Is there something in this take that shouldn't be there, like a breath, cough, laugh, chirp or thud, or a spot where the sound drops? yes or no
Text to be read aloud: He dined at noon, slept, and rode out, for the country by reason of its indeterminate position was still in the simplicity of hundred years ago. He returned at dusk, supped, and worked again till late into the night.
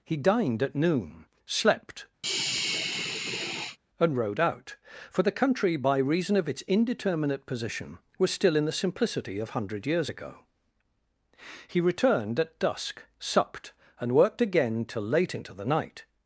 yes